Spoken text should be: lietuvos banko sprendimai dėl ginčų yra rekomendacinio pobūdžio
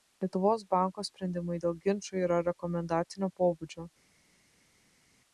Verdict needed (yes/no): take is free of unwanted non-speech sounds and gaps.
yes